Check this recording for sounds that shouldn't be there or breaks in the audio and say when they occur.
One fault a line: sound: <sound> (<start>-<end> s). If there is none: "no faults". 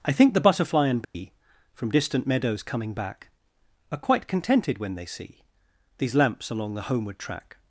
sound: dropout (1.0-1.1 s)